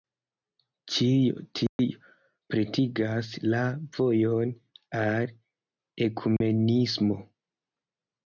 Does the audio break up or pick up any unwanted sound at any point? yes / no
yes